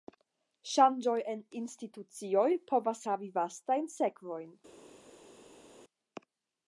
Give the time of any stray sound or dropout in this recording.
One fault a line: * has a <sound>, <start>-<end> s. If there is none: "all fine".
all fine